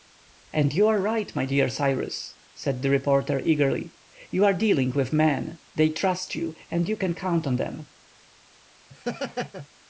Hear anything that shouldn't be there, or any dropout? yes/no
yes